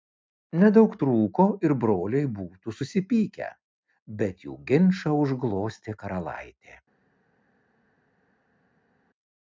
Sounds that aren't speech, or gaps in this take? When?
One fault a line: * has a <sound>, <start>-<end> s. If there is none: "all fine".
all fine